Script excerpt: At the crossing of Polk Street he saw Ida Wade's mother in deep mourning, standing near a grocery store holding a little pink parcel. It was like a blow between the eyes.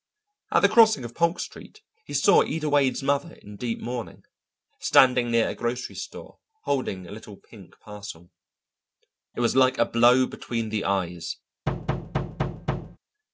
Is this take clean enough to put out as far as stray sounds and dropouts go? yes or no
no